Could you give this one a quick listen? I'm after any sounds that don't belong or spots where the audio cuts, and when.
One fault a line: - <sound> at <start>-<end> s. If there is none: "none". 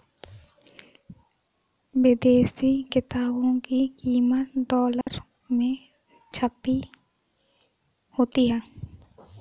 - dropout at 5.0-5.1 s